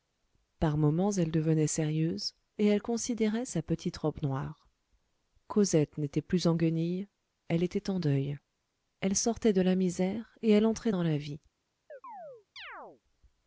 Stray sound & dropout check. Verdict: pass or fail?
fail